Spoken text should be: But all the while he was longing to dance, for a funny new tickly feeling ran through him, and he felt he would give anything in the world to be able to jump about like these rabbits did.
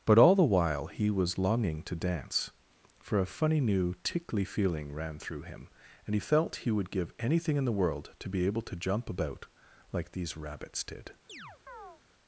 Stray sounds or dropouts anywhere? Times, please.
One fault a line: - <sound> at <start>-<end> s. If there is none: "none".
- chirp at 11.3-12.0 s